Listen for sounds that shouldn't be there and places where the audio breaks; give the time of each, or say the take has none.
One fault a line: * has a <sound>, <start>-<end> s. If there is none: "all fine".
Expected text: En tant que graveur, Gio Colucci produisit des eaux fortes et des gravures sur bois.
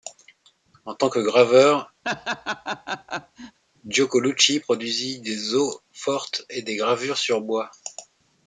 * has a laugh, 2.0-3.6 s